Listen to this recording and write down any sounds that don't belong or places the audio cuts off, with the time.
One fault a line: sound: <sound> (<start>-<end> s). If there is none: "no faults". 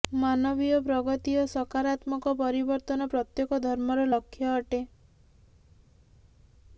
no faults